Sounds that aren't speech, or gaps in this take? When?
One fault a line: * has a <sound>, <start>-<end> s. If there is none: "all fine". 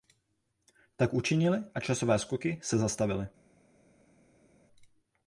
all fine